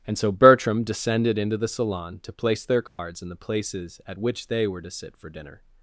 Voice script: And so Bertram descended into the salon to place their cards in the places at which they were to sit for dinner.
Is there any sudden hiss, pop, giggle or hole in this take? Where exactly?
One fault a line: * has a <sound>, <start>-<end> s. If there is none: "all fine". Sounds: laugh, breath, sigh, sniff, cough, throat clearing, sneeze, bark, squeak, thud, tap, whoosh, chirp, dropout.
* has a dropout, 2.9-3.0 s